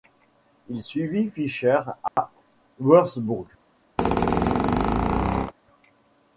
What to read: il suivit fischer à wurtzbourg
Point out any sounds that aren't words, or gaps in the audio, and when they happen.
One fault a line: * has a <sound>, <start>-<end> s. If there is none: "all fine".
* has a dropout, 2.1-2.2 s
* has a squeak, 4.0-5.5 s